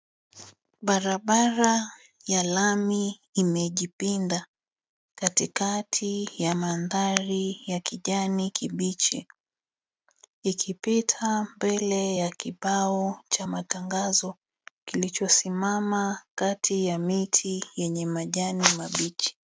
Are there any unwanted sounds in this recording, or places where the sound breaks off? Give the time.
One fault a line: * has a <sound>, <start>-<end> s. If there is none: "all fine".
all fine